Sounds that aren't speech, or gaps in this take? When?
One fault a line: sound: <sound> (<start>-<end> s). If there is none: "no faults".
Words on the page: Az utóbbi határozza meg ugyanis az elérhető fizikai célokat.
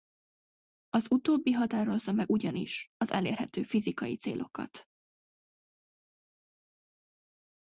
no faults